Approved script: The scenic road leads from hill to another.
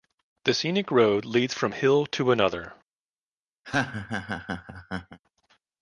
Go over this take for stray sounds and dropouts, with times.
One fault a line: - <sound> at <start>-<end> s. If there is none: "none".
- laugh at 3.6-5.2 s